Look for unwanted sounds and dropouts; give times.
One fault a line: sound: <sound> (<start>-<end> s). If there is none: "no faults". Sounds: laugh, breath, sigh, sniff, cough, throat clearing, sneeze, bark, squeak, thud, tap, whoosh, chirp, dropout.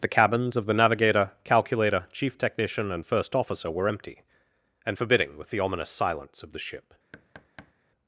sound: thud (7.1-7.7 s)